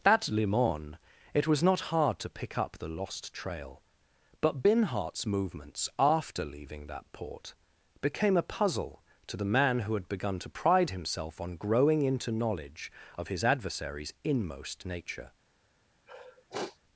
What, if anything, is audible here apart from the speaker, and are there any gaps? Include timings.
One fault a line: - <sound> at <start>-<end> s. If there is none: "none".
- sniff at 16.1-16.8 s